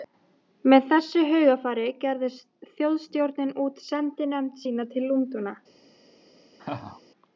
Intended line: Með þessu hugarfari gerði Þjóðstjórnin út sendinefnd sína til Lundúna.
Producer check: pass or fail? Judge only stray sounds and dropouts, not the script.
fail